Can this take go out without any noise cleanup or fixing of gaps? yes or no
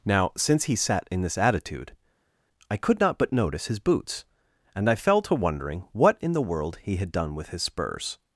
yes